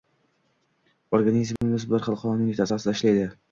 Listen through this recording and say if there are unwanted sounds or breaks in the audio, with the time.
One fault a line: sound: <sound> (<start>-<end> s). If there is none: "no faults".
sound: dropout (1.6-1.6 s)